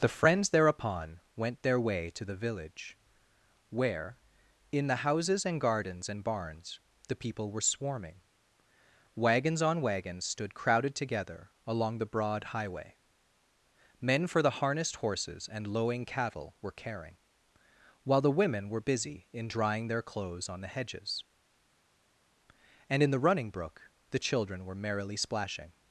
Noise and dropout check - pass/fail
pass